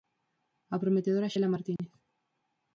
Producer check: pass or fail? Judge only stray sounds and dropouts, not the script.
fail